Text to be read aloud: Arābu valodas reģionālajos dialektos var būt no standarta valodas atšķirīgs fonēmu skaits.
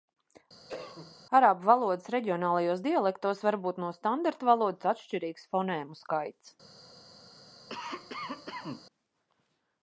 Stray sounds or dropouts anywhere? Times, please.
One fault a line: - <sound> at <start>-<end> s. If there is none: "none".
- cough at 0.7-1.2 s
- cough at 7.7-8.9 s